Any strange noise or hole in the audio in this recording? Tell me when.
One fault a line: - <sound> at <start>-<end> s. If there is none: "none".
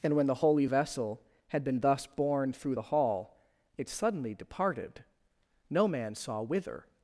none